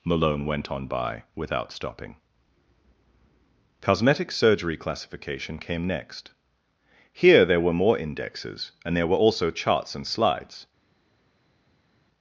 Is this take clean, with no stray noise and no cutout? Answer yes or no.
yes